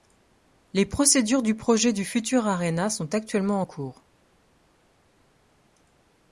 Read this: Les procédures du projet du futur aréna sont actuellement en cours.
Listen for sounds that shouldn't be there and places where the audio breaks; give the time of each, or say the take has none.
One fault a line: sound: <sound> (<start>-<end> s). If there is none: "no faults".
no faults